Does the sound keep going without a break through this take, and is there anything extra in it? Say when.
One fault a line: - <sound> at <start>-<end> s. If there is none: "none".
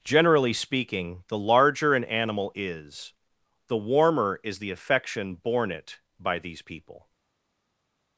none